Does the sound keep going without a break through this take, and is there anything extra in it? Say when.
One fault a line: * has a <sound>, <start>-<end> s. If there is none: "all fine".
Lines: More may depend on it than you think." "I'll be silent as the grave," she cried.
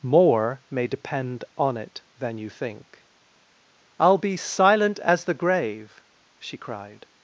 all fine